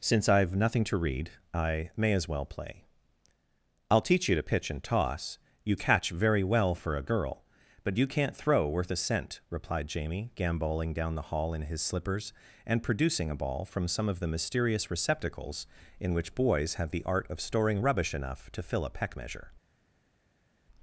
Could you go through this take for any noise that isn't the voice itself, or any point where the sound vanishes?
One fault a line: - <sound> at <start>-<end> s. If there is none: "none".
none